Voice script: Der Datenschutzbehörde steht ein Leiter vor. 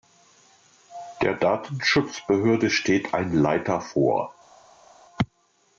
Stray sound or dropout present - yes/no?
no